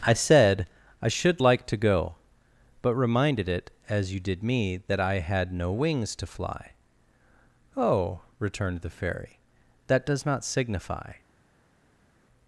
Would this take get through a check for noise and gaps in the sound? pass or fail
pass